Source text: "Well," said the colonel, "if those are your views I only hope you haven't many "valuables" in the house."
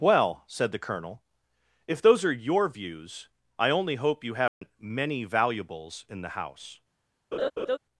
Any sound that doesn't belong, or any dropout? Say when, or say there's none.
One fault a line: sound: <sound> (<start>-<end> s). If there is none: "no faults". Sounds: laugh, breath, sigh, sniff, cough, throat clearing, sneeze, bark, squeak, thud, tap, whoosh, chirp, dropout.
sound: dropout (4.5-4.6 s)
sound: laugh (7.3-7.8 s)